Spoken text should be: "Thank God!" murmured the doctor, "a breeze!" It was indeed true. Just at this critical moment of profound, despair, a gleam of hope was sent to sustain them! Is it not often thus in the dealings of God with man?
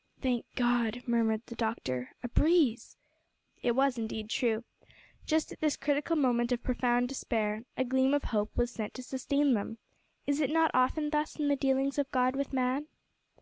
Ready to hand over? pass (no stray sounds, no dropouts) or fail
pass